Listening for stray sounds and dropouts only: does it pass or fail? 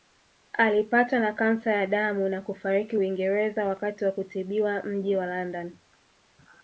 pass